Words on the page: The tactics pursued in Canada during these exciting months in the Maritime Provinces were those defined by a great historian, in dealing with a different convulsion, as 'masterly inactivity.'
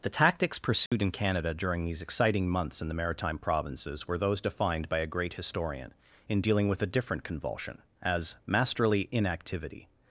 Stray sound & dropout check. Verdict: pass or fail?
fail